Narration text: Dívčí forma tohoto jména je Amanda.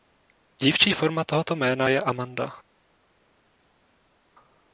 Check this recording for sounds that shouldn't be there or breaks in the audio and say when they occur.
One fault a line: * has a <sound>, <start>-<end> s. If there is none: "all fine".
all fine